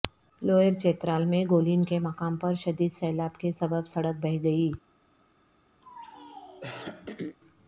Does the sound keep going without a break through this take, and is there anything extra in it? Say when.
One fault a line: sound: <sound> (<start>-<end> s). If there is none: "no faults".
sound: throat clearing (5.8-7.4 s)